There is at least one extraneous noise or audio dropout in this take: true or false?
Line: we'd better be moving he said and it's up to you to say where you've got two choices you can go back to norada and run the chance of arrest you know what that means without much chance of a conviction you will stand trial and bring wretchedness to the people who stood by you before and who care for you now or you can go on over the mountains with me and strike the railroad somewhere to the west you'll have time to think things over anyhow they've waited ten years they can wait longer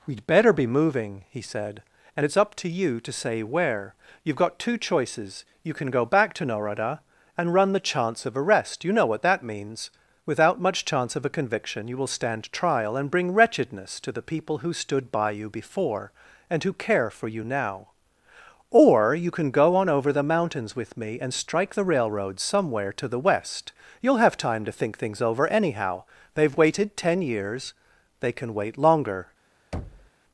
true